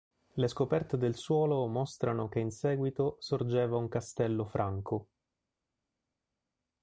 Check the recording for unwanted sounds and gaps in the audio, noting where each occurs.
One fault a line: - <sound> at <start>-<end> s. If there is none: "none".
none